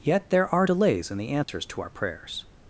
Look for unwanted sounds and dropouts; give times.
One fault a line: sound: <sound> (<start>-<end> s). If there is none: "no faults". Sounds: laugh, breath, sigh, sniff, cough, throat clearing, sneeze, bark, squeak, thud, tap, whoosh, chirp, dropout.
sound: dropout (1.4-1.5 s)